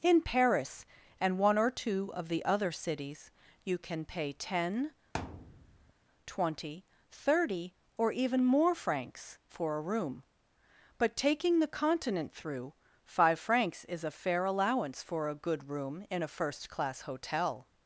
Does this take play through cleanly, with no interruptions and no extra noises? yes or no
no